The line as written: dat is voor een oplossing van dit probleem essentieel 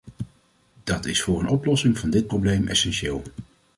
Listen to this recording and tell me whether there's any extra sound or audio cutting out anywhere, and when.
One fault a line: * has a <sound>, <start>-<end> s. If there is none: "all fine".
all fine